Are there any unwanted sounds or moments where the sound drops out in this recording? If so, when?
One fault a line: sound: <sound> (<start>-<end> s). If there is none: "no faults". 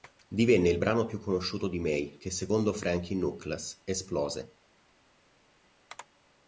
no faults